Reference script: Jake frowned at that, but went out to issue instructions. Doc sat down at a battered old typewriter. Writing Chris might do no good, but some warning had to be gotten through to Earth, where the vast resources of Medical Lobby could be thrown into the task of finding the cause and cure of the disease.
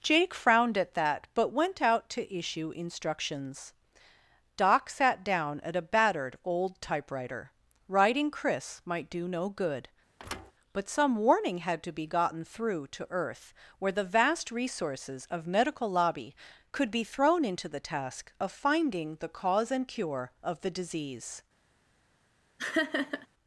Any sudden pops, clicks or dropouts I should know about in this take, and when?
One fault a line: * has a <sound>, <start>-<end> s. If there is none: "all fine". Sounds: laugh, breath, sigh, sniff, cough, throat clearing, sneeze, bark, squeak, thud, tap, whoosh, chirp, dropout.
* has a thud, 10.2-10.5 s
* has a laugh, 22.6-23.3 s